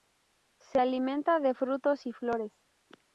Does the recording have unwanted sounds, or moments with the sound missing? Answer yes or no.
no